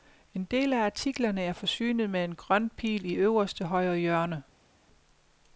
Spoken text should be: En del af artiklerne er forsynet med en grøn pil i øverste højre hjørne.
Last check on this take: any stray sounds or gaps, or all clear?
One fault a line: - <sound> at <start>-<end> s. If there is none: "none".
none